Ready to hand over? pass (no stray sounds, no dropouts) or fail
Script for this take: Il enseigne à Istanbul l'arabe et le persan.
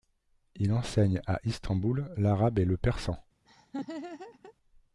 fail